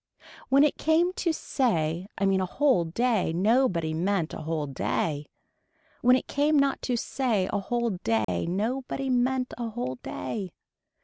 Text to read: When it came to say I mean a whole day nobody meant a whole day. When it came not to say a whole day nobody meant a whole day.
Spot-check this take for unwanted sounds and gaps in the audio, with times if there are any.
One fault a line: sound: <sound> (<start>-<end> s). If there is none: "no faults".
sound: dropout (8.2-8.3 s)